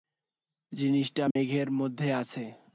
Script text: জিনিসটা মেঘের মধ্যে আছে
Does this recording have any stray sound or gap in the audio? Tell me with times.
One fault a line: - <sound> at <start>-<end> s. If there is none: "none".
- dropout at 1.3-1.4 s